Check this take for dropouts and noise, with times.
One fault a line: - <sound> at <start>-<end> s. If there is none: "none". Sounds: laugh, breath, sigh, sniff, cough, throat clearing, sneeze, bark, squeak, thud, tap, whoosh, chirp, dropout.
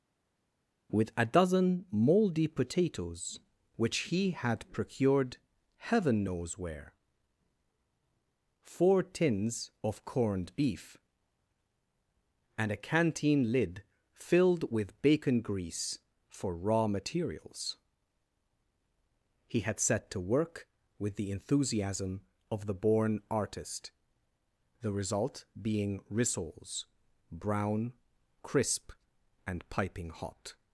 none